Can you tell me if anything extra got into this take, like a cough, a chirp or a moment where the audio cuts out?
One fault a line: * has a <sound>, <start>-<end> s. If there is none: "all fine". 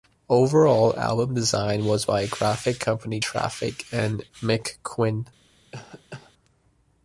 * has a cough, 5.7-6.3 s